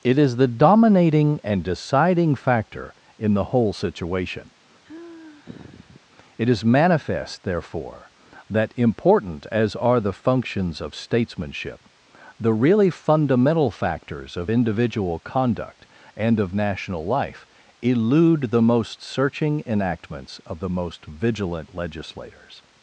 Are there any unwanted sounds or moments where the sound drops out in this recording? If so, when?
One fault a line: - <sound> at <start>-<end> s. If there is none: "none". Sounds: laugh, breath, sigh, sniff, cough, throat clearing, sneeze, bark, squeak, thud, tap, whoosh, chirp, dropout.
- sigh at 4.8-6.0 s